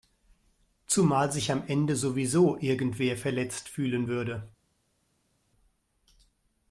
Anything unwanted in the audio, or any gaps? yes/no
no